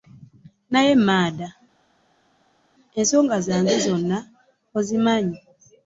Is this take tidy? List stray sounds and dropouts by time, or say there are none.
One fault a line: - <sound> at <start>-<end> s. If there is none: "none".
none